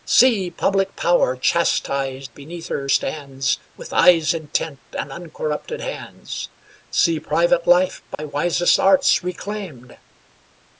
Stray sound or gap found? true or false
true